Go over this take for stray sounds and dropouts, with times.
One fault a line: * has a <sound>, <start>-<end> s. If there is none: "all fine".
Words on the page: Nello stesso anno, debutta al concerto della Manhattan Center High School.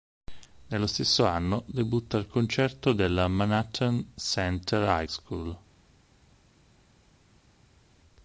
all fine